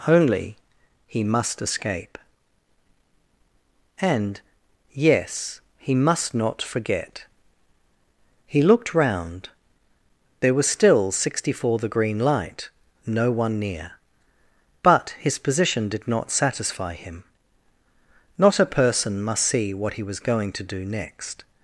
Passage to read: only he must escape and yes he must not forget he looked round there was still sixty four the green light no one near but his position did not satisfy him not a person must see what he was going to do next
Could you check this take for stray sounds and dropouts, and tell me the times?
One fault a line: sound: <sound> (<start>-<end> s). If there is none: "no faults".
no faults